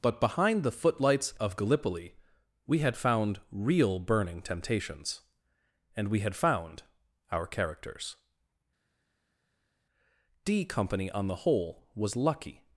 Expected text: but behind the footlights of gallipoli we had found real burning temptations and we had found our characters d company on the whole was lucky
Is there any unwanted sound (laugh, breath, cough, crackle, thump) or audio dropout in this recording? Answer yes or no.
no